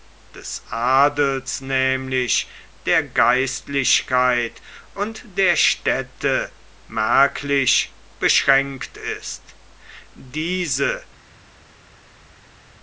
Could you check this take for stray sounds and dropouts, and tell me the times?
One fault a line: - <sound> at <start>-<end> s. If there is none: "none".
none